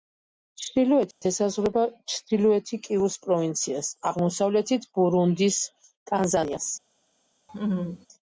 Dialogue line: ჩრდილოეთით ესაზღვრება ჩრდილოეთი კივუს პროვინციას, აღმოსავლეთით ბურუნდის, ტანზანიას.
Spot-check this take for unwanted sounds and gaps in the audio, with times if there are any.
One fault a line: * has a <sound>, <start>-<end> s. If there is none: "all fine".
* has a dropout, 1.1-1.2 s
* has a laugh, 7.5-8.1 s